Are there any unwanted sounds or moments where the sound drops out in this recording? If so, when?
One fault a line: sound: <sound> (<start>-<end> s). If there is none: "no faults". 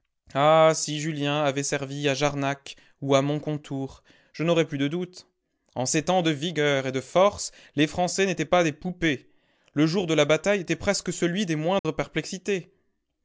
sound: dropout (11.8-11.8 s)